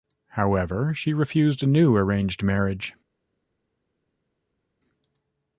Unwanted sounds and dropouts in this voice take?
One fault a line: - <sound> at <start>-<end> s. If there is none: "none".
none